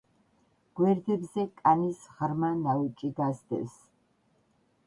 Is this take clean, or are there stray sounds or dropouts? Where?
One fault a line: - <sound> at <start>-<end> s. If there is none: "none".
none